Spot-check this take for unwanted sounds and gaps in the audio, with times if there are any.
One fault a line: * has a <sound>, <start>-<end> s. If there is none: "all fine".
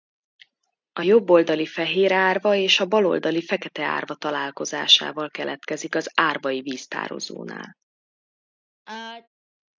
* has a sneeze, 8.9-9.3 s